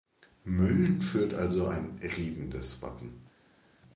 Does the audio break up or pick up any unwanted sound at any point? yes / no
no